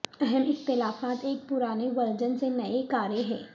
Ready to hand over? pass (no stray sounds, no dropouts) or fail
pass